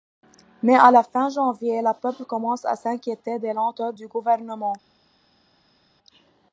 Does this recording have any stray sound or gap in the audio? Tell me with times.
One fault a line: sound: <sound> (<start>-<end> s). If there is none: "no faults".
no faults